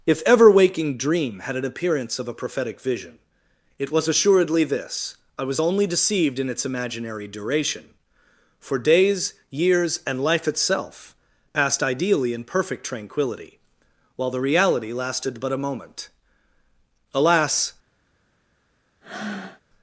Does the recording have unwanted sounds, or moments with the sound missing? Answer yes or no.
yes